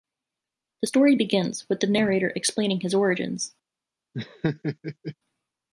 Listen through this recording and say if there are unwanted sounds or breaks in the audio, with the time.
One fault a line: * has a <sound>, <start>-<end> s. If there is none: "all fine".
* has a laugh, 4.1-5.2 s